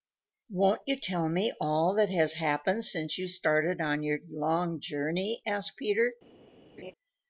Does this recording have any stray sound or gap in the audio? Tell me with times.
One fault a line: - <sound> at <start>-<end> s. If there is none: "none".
- laugh at 6.8-6.9 s